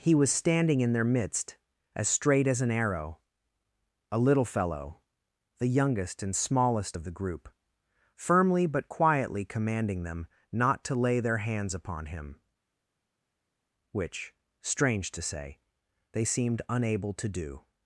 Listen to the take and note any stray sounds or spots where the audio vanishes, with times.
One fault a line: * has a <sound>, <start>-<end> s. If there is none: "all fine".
all fine